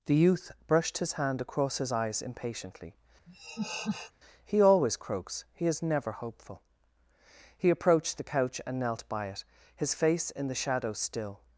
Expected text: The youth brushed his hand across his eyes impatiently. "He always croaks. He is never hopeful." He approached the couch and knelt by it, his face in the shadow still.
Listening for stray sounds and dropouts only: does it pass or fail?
fail